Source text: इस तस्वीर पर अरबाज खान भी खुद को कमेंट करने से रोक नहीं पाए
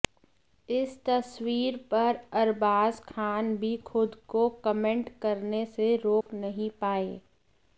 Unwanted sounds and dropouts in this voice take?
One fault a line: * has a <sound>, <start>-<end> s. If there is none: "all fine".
* has a dropout, 6.2-6.3 s